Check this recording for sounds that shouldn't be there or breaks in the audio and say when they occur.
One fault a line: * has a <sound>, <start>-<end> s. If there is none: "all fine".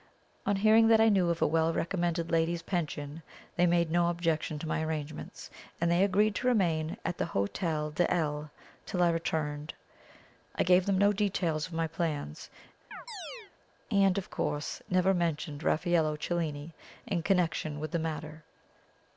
* has a chirp, 12.9-13.5 s